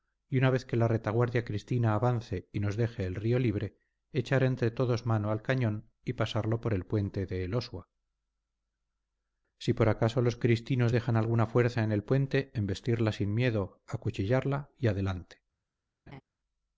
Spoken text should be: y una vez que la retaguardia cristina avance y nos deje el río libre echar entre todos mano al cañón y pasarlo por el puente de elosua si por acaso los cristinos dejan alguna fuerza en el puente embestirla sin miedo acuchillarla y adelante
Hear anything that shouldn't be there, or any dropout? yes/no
yes